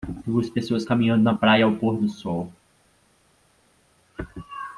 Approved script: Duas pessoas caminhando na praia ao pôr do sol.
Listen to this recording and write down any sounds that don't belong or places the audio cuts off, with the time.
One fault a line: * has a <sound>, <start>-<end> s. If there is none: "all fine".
all fine